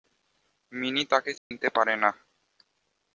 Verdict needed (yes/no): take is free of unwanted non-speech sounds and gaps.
no